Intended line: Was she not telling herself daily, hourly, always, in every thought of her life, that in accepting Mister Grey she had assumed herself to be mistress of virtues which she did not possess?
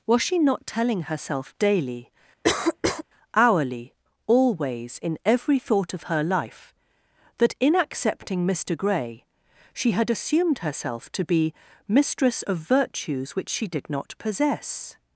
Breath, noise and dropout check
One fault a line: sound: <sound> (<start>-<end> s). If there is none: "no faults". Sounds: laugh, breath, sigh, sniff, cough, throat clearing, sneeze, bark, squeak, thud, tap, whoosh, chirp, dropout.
sound: cough (2.4-3.0 s)